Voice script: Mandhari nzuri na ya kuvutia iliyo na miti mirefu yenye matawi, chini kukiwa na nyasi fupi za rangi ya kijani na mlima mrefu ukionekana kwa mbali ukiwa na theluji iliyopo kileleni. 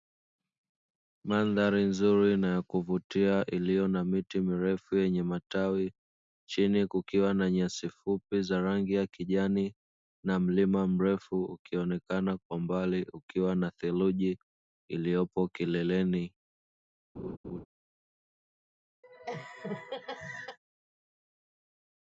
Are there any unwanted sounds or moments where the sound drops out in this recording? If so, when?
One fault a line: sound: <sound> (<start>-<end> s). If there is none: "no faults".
sound: laugh (17.2-17.7 s)
sound: laugh (19.0-20.6 s)